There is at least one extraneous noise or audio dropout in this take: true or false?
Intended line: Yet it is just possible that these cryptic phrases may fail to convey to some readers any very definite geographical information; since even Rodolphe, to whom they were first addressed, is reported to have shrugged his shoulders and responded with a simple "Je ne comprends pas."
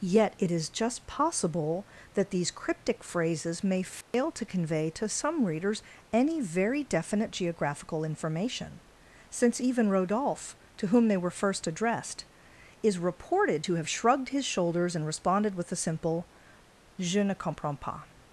true